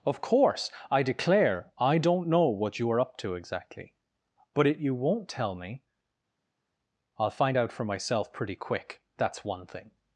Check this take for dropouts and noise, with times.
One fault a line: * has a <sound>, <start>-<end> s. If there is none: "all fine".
all fine